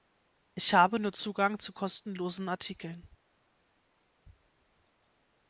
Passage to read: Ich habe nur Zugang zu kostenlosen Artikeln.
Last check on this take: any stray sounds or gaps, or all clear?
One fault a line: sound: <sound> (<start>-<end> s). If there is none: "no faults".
no faults